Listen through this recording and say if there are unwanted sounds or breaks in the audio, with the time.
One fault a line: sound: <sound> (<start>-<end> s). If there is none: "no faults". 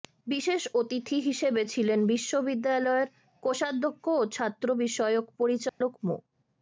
sound: dropout (5.7-5.8 s)